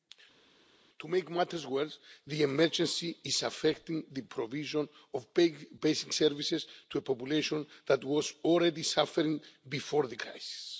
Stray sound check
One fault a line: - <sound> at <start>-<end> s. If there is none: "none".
none